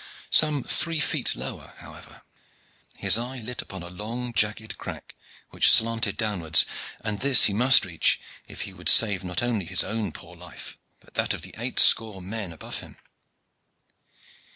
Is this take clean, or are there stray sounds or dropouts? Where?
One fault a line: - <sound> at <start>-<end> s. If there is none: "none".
none